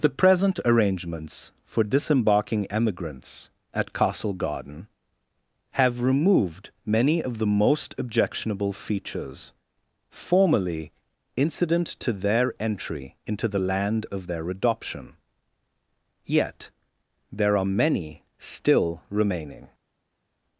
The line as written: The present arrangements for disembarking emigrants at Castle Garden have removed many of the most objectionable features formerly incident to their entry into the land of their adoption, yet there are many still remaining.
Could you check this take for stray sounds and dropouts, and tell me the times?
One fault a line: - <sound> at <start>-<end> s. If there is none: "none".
none